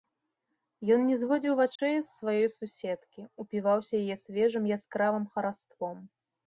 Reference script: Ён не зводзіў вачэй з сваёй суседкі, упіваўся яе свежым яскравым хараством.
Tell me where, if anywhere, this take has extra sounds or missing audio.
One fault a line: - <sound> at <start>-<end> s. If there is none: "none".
- dropout at 1.8-1.8 s